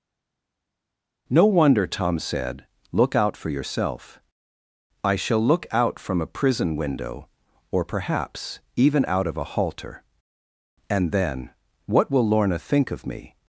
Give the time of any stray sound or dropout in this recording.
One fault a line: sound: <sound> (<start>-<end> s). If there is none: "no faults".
no faults